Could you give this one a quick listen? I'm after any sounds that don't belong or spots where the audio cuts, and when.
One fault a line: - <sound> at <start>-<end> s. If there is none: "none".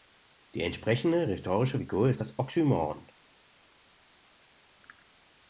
none